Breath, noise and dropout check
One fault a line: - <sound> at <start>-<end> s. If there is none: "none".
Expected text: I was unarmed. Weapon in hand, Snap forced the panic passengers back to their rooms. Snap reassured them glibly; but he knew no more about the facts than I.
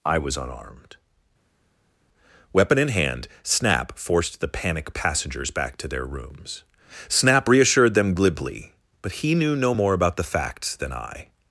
none